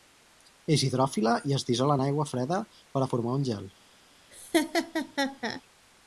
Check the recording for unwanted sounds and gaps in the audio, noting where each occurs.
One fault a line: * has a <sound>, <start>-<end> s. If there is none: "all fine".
* has a laugh, 4.3-5.6 s